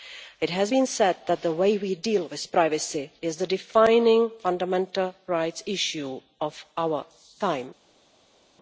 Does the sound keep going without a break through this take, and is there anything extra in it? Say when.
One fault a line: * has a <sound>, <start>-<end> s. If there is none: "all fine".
all fine